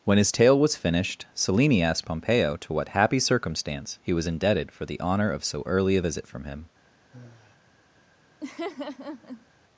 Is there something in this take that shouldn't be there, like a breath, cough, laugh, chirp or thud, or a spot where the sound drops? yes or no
yes